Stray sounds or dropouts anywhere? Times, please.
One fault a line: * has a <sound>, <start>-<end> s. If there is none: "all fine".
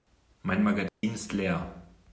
* has a dropout, 0.9-1.0 s